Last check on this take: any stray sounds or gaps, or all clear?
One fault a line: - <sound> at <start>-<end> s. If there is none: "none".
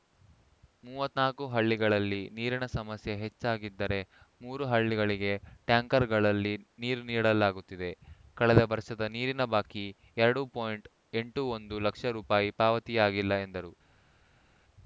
none